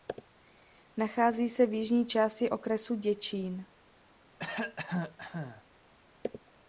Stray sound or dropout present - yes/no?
yes